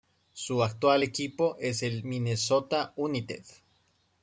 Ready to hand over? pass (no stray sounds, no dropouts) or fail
pass